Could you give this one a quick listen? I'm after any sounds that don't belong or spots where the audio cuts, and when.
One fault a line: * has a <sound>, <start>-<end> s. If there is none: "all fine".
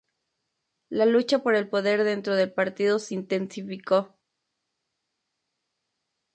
all fine